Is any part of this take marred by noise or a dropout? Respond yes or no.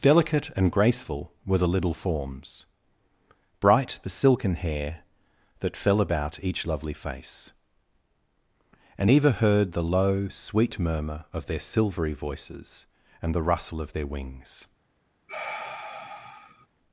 yes